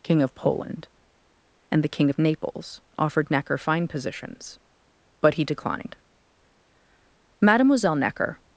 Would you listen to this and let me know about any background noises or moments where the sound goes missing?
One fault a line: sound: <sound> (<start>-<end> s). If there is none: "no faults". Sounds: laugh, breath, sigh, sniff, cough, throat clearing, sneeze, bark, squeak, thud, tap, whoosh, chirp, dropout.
no faults